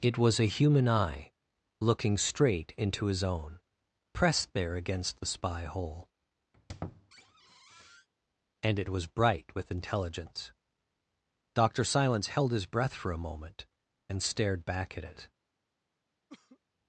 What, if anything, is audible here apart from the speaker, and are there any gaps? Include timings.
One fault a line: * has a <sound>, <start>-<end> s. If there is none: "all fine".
* has a squeak, 6.5-8.1 s
* has a cough, 16.3-16.6 s